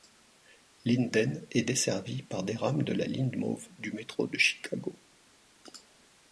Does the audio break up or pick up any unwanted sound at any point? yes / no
no